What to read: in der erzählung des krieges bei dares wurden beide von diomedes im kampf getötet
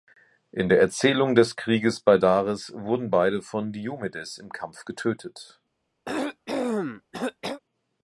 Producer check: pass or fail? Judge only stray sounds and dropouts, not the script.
fail